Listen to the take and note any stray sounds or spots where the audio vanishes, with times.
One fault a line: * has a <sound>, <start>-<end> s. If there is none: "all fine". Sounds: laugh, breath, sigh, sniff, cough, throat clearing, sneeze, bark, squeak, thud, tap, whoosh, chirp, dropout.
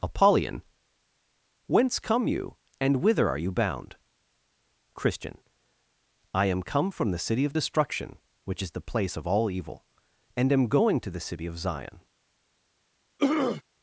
* has a throat clearing, 13.2-13.6 s